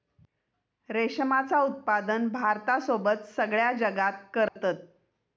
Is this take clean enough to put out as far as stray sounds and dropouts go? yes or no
no